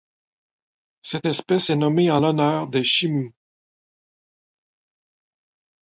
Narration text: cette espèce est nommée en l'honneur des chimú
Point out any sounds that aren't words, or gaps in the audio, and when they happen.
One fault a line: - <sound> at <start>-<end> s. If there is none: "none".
none